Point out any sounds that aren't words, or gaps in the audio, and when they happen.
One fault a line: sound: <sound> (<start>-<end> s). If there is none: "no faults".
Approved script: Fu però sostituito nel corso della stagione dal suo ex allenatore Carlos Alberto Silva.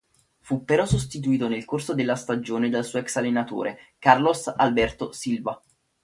no faults